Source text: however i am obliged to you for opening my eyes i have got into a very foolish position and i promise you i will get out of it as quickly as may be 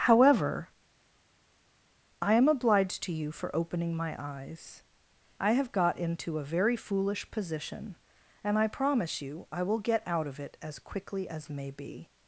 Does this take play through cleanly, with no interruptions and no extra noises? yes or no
yes